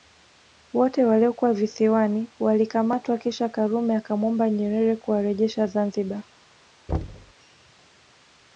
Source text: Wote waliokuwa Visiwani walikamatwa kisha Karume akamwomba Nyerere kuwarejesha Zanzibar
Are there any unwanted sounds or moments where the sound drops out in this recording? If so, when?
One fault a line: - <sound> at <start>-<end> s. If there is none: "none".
- thud at 6.9-7.3 s